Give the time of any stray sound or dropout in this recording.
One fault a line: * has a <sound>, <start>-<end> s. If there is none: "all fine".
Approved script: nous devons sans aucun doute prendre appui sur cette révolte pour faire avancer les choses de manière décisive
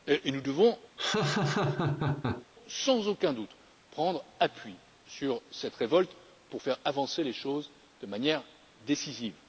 * has a laugh, 1.0-2.5 s